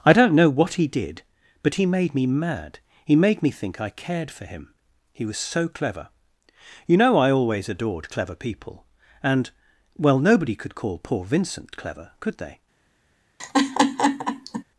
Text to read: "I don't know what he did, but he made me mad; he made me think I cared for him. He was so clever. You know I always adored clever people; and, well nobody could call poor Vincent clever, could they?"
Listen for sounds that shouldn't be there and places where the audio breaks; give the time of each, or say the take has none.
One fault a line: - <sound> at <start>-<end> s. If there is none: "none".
- laugh at 13.4-14.6 s